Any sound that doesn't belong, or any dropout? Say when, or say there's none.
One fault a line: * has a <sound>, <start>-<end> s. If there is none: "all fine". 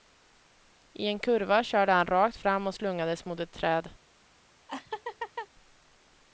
* has a laugh, 4.7-5.5 s